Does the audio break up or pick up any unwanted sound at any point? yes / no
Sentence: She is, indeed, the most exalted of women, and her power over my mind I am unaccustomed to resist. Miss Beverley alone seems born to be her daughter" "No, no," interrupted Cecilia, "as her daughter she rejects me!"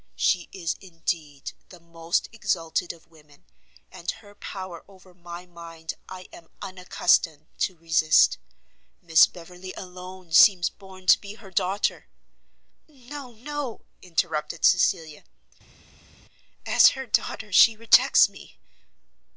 no